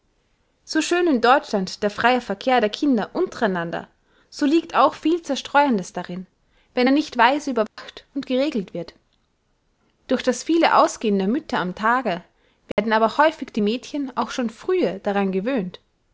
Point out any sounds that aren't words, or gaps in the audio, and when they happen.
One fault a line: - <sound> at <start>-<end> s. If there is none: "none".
- dropout at 7.7-7.8 s
- dropout at 12.7-12.8 s